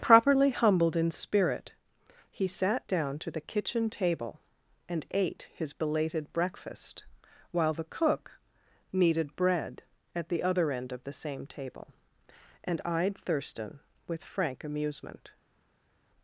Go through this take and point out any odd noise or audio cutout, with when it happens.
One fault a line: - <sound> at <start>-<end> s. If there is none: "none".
none